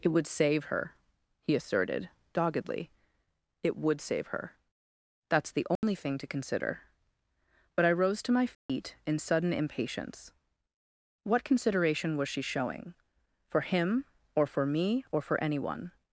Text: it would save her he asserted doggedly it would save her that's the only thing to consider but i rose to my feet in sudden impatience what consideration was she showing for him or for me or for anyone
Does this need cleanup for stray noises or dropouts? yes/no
yes